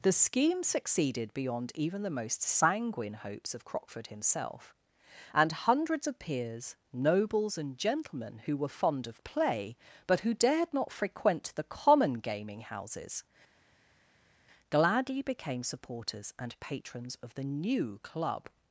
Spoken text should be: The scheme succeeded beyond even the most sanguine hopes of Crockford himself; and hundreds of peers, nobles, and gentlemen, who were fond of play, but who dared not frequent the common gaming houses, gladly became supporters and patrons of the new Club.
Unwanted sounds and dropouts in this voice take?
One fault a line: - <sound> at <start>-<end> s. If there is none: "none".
none